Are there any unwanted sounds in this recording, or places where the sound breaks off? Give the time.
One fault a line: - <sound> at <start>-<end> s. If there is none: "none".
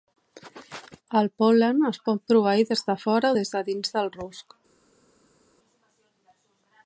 none